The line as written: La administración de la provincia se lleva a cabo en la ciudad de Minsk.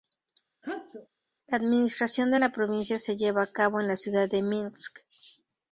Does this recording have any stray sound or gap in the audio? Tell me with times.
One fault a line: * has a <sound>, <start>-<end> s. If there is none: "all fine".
* has a sneeze, 0.6-1.1 s